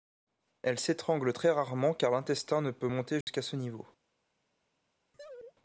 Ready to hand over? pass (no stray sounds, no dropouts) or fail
fail